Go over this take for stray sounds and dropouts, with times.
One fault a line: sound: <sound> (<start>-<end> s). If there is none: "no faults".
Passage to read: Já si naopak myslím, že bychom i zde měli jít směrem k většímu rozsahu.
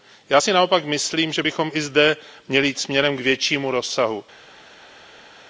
no faults